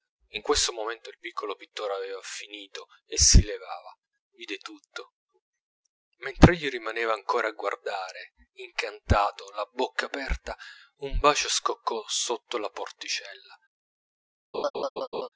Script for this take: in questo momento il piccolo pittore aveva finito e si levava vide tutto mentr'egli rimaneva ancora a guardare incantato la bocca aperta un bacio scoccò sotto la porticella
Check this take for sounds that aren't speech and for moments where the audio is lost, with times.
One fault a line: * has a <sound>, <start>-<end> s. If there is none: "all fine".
* has a laugh, 14.5-15.3 s